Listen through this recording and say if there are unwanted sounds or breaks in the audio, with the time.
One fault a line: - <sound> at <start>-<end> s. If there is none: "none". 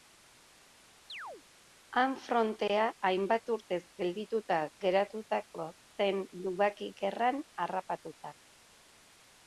- chirp at 1.1-1.4 s